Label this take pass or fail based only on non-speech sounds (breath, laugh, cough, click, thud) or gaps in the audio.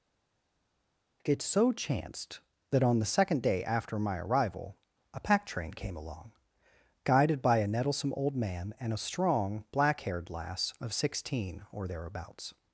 pass